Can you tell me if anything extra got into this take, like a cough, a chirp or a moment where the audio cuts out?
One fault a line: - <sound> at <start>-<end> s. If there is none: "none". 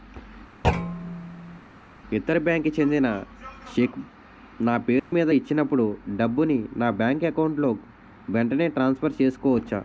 - thud at 0.6-1.6 s
- dropout at 5.0-5.1 s